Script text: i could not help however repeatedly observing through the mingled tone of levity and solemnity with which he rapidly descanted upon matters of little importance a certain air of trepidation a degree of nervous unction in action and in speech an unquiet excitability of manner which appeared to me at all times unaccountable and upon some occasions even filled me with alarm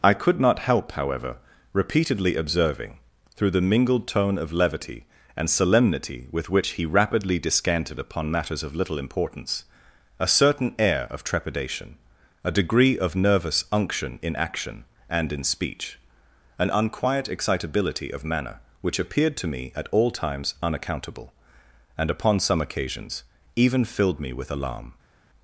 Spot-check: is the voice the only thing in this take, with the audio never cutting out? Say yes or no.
yes